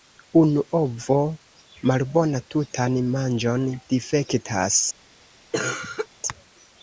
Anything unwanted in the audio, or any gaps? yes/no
yes